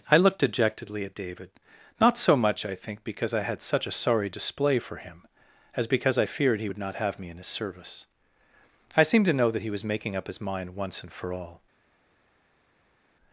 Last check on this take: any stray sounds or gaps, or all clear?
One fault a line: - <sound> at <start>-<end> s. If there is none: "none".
none